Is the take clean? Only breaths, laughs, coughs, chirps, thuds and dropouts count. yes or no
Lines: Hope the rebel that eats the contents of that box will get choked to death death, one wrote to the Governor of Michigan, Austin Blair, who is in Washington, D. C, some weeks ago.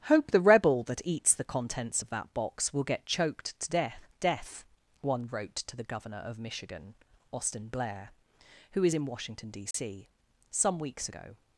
no